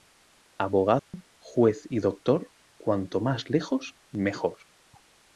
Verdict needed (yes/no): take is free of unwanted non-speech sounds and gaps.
no